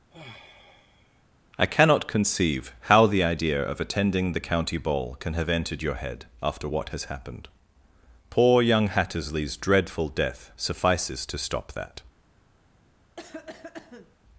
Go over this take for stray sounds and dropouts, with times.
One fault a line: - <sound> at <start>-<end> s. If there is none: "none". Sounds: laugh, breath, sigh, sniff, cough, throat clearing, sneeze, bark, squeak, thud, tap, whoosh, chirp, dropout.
- sigh at 0.1-1.2 s
- cough at 13.2-14.2 s